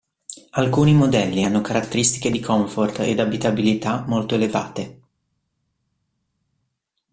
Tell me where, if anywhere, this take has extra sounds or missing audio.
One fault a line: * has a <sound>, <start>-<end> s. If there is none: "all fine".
all fine